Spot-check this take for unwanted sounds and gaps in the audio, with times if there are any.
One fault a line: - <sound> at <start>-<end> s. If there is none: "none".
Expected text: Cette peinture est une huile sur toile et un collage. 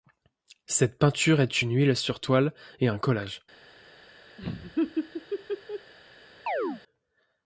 - laugh at 4.4-5.9 s
- chirp at 6.5-6.8 s